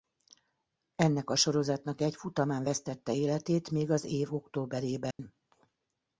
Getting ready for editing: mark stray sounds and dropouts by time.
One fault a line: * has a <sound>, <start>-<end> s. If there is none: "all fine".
* has a dropout, 5.1-5.2 s